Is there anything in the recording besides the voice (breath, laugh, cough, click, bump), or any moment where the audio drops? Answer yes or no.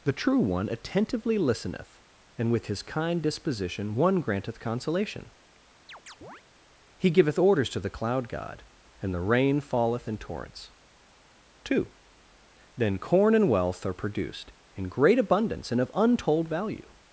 yes